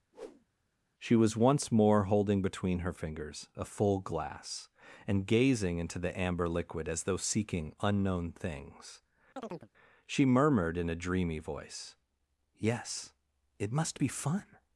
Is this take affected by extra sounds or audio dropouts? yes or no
yes